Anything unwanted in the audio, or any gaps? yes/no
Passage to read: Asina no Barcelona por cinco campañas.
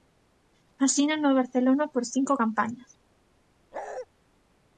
yes